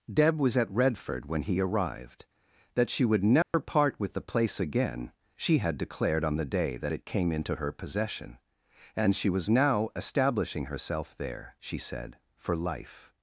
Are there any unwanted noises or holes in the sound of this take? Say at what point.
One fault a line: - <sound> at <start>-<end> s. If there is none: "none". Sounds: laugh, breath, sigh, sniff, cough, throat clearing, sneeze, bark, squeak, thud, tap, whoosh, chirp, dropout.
- dropout at 3.4-3.5 s